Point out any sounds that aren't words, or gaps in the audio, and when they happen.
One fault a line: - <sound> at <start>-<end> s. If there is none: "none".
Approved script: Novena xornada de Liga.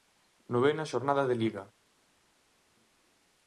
none